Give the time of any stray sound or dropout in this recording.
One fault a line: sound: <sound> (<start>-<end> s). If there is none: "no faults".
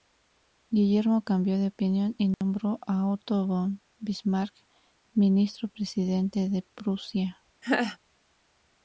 sound: dropout (2.3-2.4 s)
sound: laugh (7.6-8.0 s)